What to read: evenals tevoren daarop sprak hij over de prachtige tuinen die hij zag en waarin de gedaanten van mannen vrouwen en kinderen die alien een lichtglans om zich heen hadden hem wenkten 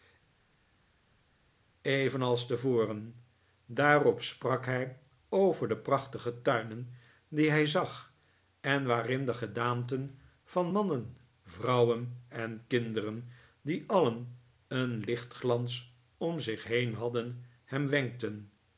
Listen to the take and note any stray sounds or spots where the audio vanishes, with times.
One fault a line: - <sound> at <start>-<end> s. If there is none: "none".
none